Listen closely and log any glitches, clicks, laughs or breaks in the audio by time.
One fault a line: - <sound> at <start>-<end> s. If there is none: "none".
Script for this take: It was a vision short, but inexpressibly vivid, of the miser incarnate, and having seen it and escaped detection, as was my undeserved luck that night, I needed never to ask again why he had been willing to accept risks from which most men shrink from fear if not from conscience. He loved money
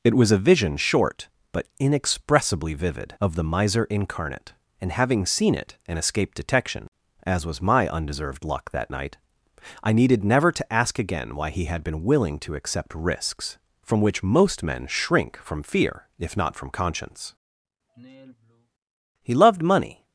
- sigh at 17.9-18.7 s